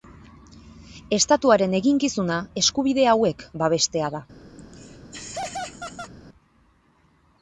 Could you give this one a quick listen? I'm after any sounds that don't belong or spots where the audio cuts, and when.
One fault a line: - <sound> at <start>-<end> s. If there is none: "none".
- laugh at 4.6-6.1 s